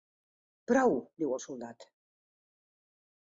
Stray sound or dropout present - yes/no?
no